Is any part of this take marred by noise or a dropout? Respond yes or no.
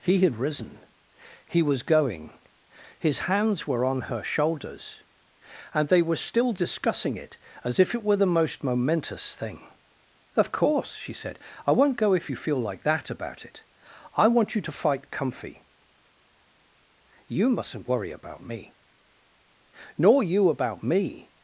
no